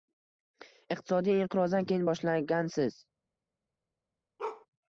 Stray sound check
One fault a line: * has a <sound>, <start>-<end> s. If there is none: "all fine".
* has a bark, 4.4-4.7 s